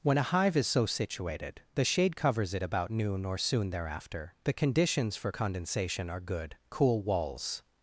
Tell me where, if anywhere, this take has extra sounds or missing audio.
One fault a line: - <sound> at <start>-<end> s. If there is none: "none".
none